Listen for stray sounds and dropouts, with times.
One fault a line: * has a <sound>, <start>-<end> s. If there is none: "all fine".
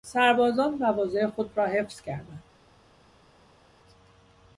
all fine